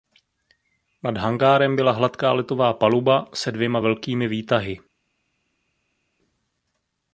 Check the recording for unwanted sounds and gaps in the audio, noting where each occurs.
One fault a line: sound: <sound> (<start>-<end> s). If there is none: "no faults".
no faults